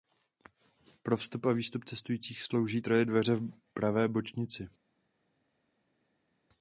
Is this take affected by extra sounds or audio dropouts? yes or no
no